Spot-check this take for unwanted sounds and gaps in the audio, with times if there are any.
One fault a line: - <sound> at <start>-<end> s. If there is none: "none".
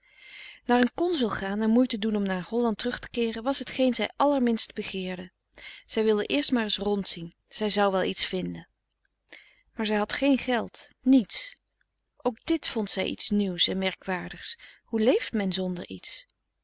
none